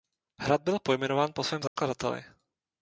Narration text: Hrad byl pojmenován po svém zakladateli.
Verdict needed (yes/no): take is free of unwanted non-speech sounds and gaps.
no